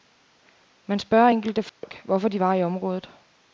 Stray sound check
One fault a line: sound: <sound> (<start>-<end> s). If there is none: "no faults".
sound: dropout (1.7-1.8 s)